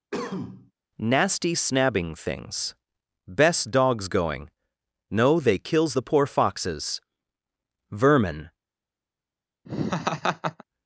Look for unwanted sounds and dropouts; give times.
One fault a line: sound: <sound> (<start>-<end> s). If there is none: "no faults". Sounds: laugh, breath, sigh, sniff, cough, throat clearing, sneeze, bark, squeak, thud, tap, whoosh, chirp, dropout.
sound: cough (0.1-0.7 s)
sound: laugh (9.7-10.6 s)